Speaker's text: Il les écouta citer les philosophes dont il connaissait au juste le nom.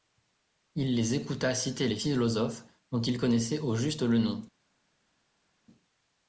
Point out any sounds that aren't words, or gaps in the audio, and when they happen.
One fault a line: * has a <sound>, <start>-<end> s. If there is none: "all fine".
all fine